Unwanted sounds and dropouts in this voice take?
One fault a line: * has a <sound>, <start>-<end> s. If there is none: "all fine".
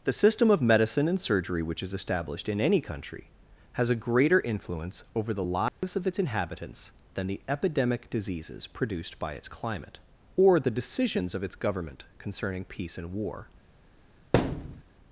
* has a dropout, 5.7-5.8 s
* has a thud, 14.3-14.8 s